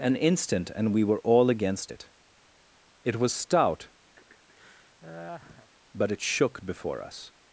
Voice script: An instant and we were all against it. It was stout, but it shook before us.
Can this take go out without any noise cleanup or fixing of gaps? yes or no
no